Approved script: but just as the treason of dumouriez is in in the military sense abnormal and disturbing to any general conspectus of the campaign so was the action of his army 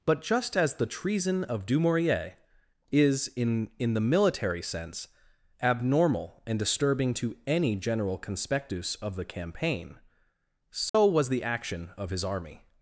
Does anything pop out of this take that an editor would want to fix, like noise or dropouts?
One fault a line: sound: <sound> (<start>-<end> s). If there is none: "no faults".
sound: dropout (10.9-10.9 s)